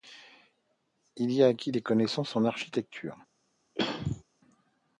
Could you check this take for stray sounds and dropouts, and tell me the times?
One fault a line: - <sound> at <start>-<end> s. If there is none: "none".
- throat clearing at 3.8-4.2 s